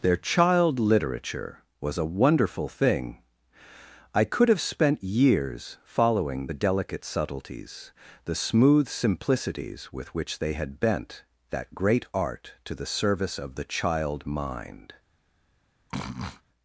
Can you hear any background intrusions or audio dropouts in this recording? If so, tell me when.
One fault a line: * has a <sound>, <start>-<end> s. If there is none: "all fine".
* has a sniff, 15.9-16.4 s